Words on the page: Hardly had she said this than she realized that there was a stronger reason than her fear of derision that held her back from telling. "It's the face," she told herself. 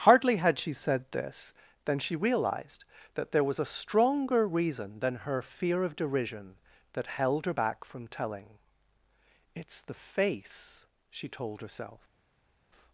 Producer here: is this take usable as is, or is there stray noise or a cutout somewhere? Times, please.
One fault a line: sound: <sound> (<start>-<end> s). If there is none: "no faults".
no faults